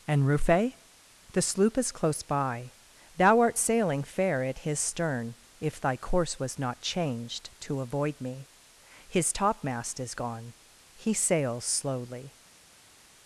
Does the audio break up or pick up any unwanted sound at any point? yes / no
no